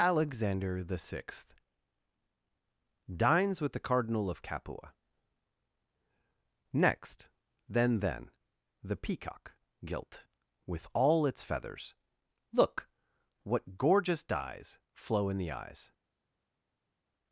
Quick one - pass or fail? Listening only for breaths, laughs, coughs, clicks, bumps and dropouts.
pass